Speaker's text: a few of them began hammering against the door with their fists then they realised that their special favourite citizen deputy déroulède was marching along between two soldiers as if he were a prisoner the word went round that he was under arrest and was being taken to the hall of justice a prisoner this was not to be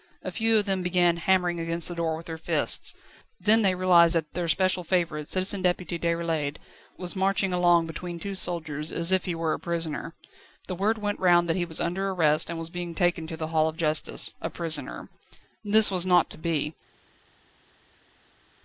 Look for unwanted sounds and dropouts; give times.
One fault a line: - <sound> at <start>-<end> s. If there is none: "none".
none